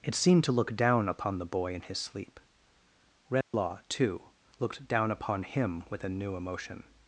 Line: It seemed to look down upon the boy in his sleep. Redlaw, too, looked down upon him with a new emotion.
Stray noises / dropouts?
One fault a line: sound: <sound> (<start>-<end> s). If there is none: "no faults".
sound: dropout (3.4-3.5 s)